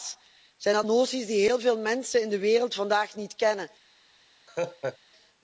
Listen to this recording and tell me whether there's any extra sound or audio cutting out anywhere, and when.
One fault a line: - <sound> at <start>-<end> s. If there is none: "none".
- laugh at 4.5-5.0 s